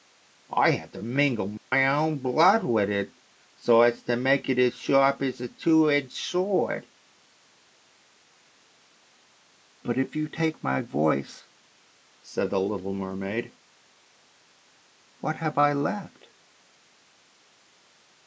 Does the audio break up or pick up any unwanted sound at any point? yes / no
yes